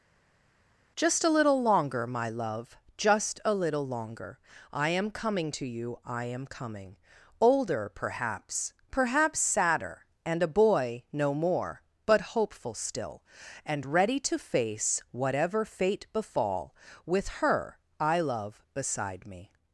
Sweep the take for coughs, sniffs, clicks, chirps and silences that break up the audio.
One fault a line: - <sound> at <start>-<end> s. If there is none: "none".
none